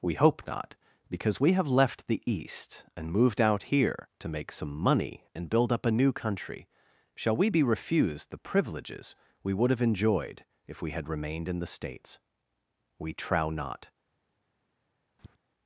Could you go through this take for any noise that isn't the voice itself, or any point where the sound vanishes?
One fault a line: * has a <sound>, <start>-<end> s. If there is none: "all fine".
* has a tap, 15.2-15.4 s